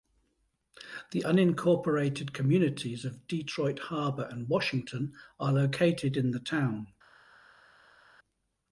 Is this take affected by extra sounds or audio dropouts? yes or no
no